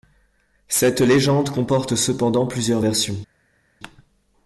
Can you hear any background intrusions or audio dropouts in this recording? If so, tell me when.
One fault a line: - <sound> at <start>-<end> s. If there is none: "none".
none